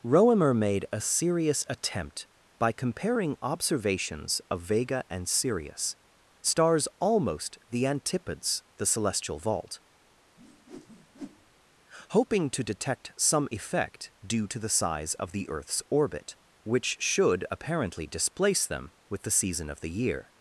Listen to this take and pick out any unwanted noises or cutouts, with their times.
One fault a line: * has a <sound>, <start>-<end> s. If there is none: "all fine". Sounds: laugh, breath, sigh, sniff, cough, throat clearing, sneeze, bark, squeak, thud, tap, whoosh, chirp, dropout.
* has a whoosh, 10.4-11.5 s